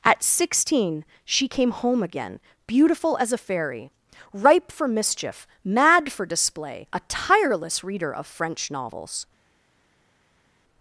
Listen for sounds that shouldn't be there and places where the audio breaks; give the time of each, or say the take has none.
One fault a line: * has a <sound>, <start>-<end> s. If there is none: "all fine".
all fine